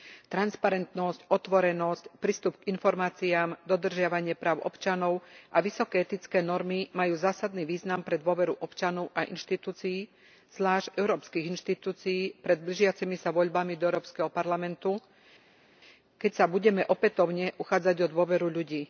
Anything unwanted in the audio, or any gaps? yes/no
no